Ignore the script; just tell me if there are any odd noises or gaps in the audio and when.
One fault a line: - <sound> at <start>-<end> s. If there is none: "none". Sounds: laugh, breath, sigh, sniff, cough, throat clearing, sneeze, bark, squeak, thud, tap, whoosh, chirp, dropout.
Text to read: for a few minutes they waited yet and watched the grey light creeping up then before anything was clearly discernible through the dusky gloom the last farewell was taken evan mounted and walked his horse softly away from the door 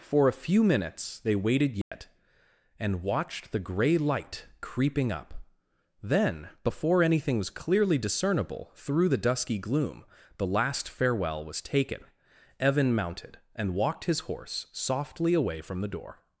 - dropout at 1.8-1.9 s